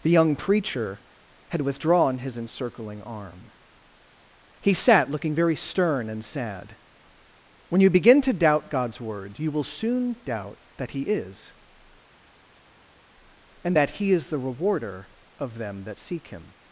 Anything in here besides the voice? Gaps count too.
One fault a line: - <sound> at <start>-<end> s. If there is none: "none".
none